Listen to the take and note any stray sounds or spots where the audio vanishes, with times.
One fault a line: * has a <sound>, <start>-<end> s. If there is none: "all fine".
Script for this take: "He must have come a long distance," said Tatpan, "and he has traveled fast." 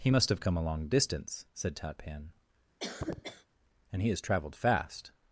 * has a cough, 2.8-3.5 s